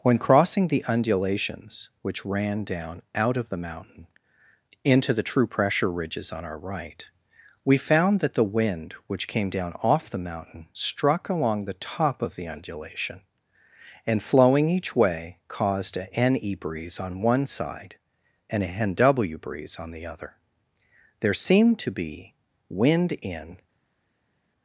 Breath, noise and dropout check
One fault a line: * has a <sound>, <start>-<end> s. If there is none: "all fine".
all fine